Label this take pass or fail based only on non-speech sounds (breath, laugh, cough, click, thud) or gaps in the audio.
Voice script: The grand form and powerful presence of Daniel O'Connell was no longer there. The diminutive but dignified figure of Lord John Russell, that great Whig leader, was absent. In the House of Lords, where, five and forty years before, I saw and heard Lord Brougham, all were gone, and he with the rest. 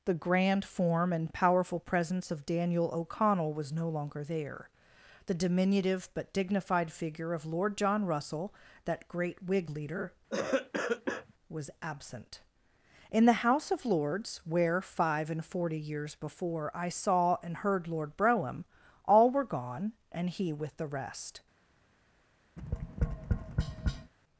fail